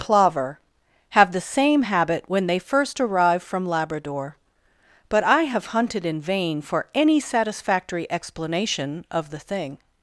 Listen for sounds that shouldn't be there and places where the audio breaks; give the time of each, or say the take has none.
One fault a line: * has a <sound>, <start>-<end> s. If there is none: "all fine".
all fine